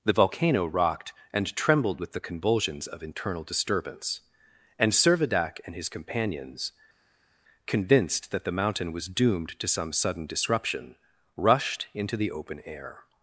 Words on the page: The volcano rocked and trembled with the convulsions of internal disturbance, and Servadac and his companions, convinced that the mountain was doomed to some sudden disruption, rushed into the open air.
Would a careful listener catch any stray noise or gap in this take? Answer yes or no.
no